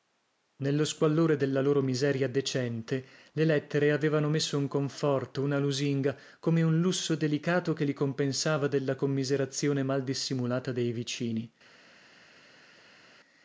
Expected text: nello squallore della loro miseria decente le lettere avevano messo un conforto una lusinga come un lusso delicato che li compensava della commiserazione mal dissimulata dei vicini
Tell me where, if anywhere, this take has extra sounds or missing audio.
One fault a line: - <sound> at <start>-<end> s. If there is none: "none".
none